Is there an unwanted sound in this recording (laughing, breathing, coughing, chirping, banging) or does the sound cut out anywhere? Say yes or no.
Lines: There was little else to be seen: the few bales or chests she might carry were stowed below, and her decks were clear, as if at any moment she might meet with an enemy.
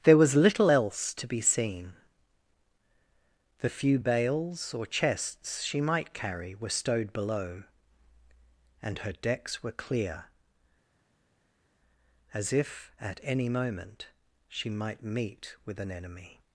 no